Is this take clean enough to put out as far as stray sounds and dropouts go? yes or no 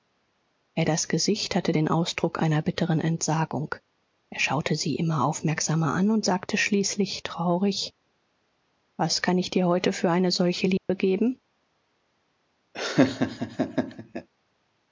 no